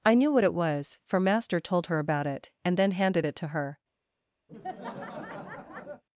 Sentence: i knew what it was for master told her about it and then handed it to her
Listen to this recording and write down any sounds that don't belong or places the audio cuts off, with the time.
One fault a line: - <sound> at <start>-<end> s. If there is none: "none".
- laugh at 4.5-6.0 s